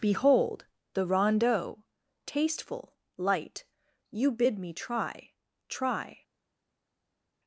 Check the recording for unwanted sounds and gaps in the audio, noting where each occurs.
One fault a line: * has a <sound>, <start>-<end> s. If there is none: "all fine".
all fine